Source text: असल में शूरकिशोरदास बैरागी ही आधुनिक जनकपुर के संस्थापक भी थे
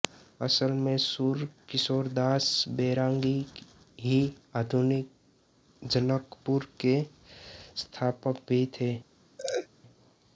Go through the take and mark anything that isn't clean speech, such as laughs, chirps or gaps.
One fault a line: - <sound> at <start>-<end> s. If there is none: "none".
- laugh at 9.4-9.7 s